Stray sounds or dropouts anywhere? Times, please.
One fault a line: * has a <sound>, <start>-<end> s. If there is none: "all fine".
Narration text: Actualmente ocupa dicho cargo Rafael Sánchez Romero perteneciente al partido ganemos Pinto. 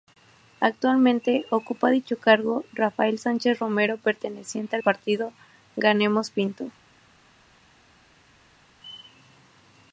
all fine